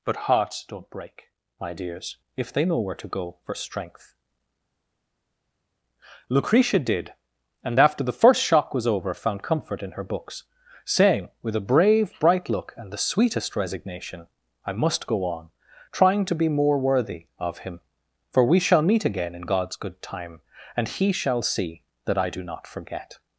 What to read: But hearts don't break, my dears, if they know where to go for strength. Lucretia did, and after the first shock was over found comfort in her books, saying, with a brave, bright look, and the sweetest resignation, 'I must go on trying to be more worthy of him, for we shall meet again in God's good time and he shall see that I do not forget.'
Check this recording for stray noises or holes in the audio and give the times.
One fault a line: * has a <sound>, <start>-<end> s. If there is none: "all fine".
all fine